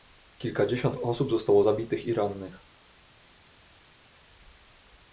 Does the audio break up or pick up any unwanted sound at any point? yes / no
no